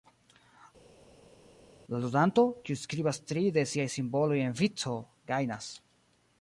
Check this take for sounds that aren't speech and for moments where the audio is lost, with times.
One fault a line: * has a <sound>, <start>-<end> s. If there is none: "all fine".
all fine